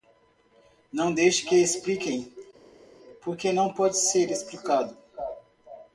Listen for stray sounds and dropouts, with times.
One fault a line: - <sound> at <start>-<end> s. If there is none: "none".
none